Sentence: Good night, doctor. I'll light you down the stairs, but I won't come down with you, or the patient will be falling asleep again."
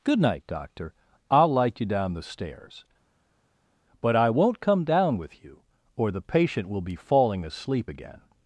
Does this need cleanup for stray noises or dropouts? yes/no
no